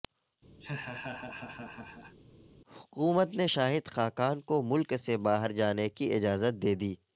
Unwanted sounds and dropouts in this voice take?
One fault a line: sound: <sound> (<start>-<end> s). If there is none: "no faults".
sound: laugh (0.6-2.2 s)